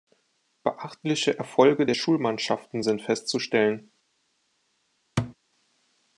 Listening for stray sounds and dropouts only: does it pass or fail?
fail